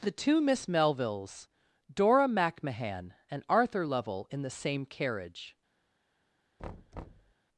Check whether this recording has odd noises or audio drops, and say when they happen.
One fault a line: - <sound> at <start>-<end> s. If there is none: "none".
- thud at 6.6-7.3 s